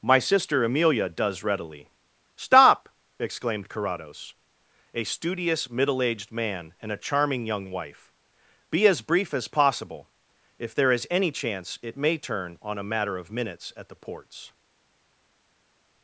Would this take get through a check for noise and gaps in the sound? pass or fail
pass